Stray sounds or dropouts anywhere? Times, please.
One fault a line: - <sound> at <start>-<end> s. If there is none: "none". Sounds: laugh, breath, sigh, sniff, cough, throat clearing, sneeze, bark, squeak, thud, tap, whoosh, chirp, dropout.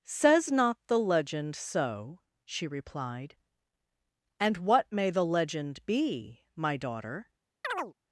- chirp at 7.6-7.9 s